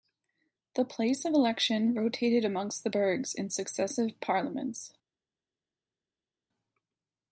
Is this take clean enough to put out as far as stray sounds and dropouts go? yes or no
yes